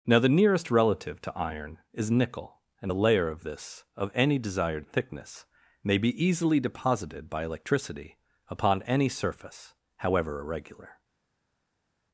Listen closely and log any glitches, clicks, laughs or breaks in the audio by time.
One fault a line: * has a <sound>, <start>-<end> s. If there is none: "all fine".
all fine